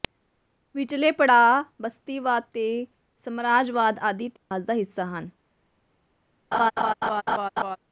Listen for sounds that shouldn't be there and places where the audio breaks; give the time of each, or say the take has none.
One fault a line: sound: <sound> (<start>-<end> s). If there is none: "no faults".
sound: dropout (4.4-4.5 s)
sound: laugh (6.5-7.8 s)